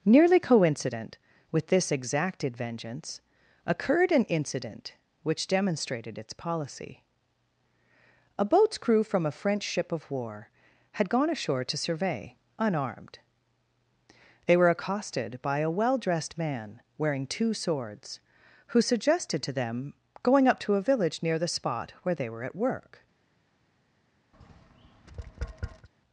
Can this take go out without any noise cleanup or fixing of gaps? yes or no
no